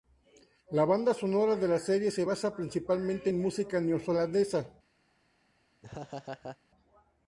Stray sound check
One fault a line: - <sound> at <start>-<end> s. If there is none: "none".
- laugh at 5.8-6.6 s